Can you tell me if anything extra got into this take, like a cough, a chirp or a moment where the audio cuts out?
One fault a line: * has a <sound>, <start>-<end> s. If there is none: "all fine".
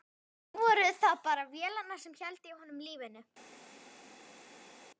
all fine